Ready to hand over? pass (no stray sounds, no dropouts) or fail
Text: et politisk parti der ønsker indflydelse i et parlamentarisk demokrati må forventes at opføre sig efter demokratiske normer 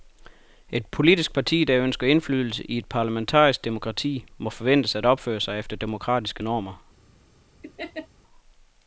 fail